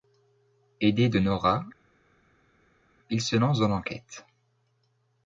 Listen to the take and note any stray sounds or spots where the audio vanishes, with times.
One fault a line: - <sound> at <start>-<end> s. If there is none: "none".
none